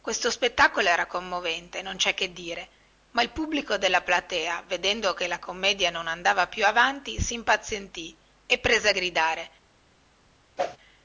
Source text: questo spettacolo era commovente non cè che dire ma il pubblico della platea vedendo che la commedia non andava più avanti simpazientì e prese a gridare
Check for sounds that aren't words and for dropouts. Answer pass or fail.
fail